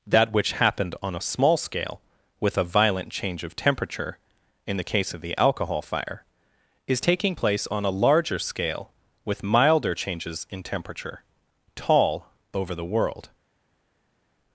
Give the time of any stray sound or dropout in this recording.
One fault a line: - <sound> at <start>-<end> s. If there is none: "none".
none